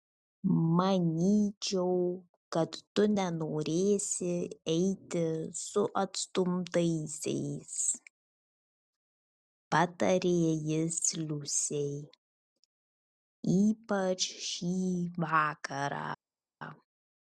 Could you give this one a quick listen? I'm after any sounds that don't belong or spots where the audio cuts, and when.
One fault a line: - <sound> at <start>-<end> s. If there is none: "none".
none